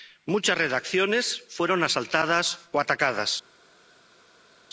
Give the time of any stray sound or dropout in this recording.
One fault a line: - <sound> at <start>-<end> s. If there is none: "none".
none